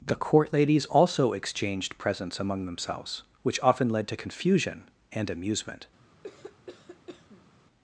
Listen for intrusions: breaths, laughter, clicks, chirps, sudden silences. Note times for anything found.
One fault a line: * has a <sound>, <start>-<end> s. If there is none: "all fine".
* has a cough, 6.2-7.5 s